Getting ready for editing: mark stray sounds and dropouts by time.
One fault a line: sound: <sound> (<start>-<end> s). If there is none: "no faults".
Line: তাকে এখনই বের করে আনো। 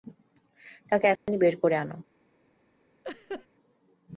sound: dropout (1.2-1.3 s)
sound: laugh (3.0-3.5 s)